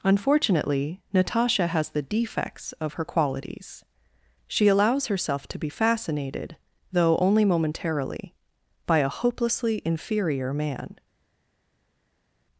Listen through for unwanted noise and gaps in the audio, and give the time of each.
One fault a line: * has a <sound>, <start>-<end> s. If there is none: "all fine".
all fine